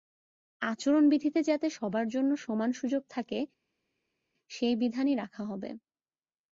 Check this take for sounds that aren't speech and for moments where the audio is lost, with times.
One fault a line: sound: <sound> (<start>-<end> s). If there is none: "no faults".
no faults